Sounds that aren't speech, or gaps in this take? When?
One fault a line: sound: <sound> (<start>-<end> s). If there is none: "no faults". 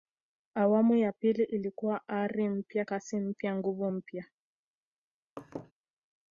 sound: laugh (5.4-5.7 s)